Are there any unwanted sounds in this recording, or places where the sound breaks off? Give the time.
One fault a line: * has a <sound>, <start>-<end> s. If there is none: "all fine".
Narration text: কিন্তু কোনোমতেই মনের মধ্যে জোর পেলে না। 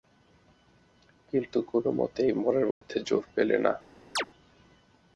* has a dropout, 2.7-2.8 s
* has a chirp, 4.2-4.3 s